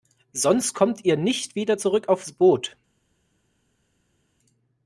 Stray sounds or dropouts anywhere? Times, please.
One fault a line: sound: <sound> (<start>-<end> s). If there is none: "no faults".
no faults